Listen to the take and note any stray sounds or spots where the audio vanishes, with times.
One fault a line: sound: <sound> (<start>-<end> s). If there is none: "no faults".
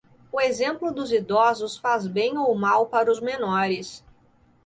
no faults